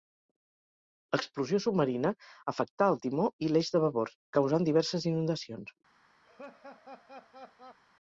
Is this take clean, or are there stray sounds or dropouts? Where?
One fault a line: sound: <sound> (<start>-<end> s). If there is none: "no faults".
sound: laugh (6.2-7.8 s)